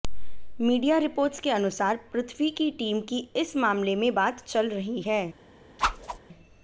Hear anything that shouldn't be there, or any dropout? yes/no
yes